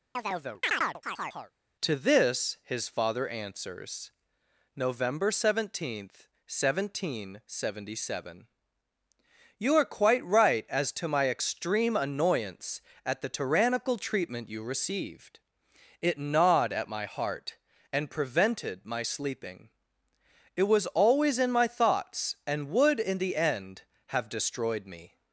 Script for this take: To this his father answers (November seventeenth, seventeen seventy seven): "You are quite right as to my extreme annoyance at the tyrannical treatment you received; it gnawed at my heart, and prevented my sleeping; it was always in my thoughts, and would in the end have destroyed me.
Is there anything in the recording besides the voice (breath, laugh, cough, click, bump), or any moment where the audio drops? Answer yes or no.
yes